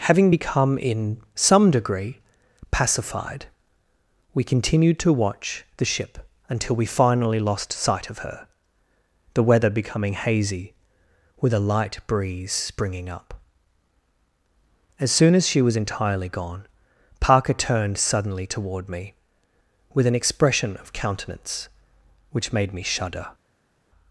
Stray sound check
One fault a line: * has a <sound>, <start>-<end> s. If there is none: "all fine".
all fine